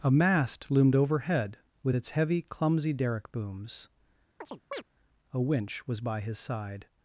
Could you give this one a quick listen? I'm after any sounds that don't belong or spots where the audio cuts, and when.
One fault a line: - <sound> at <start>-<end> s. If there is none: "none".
- chirp at 4.4-4.8 s